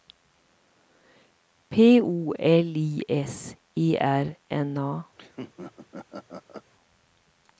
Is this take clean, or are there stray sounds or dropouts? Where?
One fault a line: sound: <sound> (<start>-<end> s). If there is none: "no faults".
sound: laugh (5.2-6.7 s)